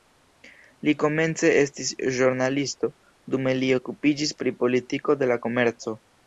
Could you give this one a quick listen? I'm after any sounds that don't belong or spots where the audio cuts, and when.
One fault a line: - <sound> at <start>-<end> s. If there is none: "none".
none